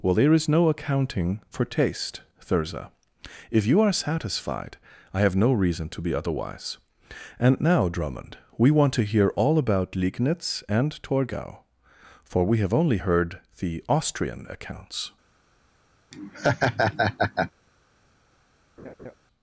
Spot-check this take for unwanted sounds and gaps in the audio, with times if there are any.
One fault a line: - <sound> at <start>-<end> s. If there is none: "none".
- laugh at 16.1-17.5 s
- laugh at 18.8-19.2 s